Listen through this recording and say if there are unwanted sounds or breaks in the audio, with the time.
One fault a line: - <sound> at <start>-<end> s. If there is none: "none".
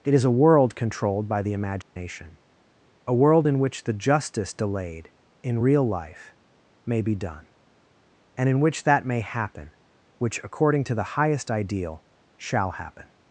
- dropout at 1.8-2.0 s